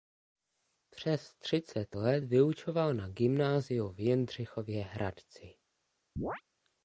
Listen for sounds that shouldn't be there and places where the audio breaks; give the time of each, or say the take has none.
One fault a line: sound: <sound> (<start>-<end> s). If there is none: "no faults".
sound: chirp (6.2-6.4 s)